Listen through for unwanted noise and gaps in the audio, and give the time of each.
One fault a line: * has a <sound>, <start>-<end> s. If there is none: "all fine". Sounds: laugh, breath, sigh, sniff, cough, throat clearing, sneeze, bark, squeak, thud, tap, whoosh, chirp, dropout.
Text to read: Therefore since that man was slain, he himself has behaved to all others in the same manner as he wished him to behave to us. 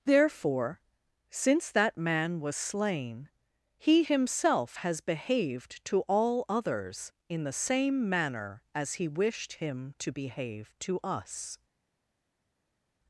all fine